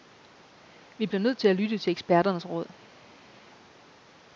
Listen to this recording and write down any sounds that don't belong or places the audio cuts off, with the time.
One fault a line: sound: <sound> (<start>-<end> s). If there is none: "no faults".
no faults